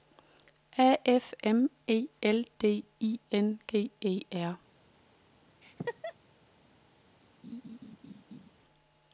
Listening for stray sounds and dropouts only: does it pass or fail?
fail